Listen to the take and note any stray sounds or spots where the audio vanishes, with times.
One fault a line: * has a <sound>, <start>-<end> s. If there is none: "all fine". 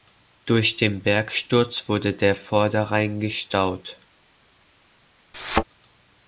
* has a thud, 5.3-5.6 s